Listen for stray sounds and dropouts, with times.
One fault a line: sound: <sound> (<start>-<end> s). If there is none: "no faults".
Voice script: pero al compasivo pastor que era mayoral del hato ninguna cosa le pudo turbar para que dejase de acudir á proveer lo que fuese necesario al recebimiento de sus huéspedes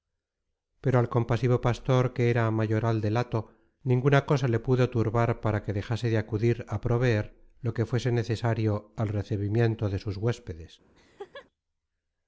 sound: laugh (10.9-11.5 s)